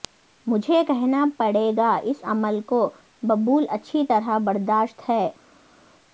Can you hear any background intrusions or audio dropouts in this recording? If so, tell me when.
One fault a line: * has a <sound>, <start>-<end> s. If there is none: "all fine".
all fine